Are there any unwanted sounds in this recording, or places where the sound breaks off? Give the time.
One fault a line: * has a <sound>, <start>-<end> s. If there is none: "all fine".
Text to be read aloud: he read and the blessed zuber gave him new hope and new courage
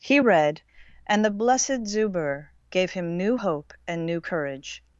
all fine